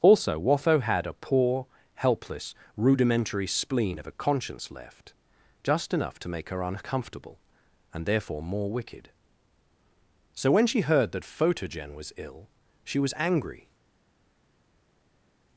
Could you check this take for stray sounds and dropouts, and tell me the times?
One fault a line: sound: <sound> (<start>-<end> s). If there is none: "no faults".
no faults